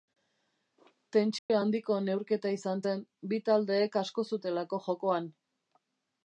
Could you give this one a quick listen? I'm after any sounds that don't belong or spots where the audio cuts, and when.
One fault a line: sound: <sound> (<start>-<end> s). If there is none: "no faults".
sound: dropout (1.4-1.5 s)